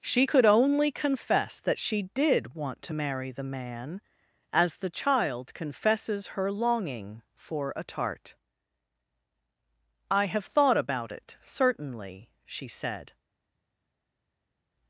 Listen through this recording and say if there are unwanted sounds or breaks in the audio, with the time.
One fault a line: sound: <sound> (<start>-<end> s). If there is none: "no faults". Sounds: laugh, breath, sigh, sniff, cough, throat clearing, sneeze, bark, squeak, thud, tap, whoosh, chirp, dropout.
no faults